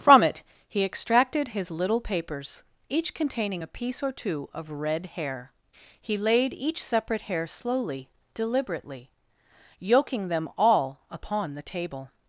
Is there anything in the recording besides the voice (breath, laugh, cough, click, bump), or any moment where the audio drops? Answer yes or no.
no